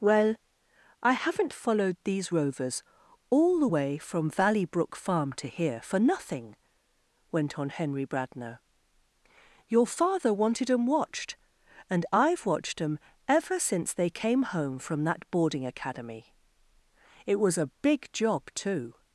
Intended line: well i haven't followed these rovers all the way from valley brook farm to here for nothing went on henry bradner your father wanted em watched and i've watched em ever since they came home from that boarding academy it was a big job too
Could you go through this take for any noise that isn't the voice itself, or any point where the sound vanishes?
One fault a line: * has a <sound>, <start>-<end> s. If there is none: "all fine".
all fine